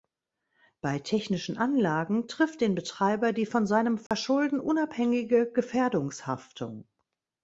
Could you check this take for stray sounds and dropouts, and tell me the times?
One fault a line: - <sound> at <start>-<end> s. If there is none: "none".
- dropout at 4.1-4.1 s